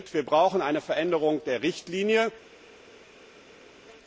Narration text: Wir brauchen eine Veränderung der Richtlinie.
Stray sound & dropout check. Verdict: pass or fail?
pass